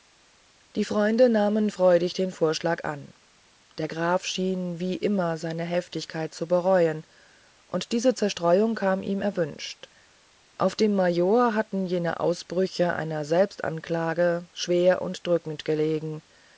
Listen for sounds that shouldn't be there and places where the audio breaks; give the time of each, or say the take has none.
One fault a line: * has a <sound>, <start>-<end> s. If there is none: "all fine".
all fine